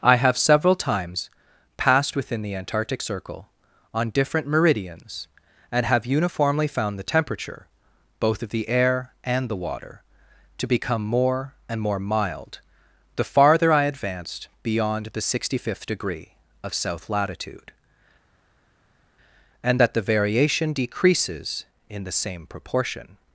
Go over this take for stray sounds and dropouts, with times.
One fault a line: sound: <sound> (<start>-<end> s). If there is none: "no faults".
no faults